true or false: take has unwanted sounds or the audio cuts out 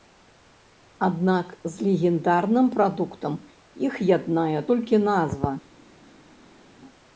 false